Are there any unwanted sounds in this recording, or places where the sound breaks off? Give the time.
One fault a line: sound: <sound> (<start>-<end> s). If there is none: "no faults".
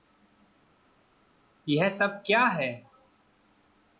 no faults